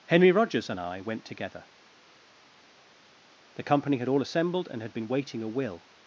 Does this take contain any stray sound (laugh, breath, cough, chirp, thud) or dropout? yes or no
no